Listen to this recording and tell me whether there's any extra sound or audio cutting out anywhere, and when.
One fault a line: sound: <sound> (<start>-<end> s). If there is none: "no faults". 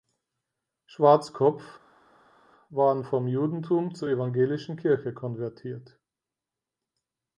no faults